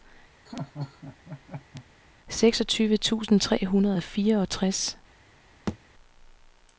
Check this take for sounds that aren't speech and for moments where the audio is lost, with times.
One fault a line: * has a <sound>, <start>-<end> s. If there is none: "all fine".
* has a laugh, 0.5-1.9 s
* has a thud, 5.7-5.8 s